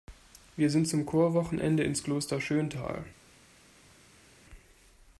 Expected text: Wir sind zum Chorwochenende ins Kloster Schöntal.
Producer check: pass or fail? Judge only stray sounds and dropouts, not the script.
pass